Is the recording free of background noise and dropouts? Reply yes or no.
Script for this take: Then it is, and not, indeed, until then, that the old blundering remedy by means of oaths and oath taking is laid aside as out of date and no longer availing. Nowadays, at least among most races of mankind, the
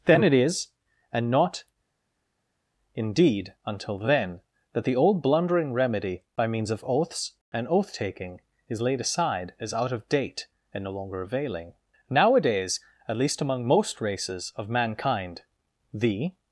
yes